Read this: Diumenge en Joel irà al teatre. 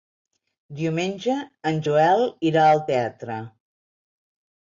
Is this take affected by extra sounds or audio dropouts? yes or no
no